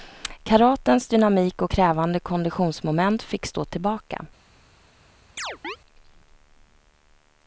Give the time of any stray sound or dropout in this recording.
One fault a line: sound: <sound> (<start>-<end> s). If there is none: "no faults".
sound: chirp (5.4-5.8 s)